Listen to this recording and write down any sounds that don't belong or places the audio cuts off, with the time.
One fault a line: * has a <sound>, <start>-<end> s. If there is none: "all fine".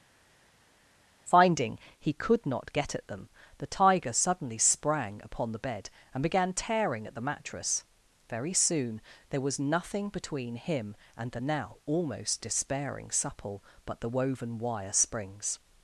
all fine